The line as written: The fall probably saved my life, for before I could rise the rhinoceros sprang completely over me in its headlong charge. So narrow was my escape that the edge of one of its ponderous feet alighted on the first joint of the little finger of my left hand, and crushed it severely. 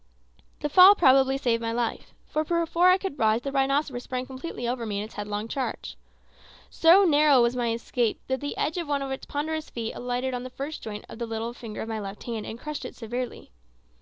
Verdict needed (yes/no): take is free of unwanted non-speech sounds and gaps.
yes